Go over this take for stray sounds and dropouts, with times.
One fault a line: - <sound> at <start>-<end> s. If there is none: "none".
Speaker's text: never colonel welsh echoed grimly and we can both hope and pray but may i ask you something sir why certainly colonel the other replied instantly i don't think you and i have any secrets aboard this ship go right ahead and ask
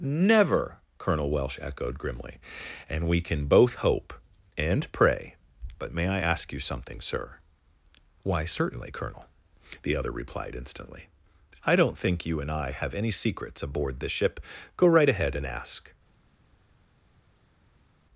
none